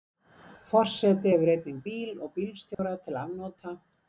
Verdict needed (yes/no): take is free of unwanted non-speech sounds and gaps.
no